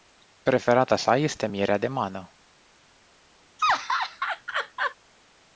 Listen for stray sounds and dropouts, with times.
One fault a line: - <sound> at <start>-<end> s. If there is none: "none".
- laugh at 3.6-4.9 s